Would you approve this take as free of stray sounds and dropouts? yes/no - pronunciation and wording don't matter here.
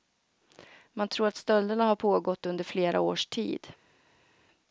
yes